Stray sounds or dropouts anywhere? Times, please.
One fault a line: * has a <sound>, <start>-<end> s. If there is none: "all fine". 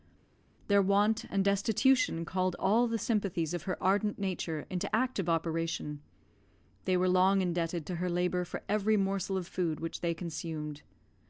all fine